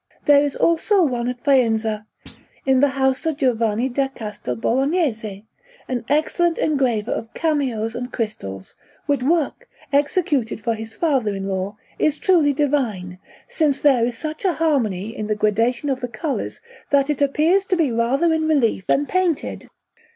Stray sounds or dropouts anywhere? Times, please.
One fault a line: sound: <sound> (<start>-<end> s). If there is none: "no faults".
sound: thud (2.3-2.5 s)